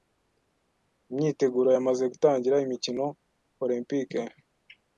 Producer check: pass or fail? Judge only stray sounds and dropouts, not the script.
pass